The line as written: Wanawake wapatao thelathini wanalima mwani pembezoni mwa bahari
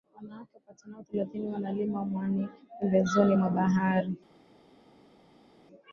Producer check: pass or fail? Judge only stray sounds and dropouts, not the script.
pass